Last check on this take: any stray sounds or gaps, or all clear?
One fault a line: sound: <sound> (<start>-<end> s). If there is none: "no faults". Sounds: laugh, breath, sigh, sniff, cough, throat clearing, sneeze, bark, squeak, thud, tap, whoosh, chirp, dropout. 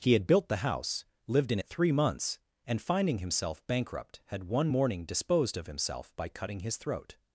no faults